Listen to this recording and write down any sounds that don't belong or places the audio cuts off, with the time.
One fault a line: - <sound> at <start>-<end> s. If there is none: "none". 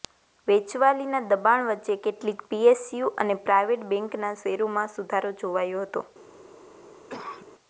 - cough at 7.1-7.5 s